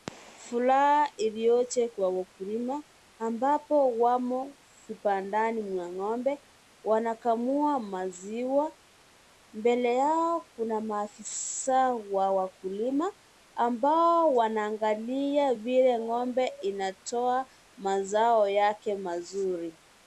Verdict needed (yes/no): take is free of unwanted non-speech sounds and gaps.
yes